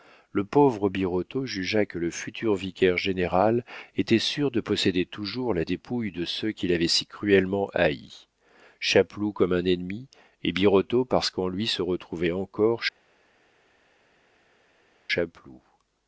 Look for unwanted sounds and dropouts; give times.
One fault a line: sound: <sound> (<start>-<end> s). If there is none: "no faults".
no faults